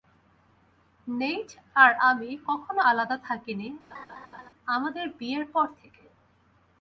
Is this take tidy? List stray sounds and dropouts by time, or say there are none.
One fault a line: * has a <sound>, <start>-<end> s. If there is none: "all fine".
* has a laugh, 3.9-4.5 s